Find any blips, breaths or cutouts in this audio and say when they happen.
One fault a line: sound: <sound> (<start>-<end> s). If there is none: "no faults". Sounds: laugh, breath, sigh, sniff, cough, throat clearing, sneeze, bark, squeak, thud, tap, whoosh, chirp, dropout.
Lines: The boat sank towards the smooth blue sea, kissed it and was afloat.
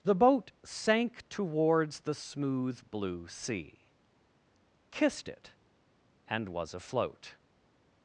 no faults